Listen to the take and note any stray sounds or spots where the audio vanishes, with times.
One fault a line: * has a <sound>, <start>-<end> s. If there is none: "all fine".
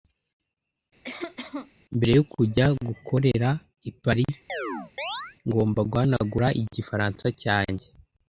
* has a cough, 1.0-1.7 s
* has a chirp, 4.5-5.4 s